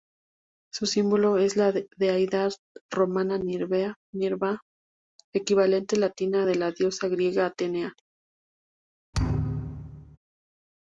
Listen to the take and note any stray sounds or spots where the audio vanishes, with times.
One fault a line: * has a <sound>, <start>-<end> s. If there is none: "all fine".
* has a thud, 9.1-10.2 s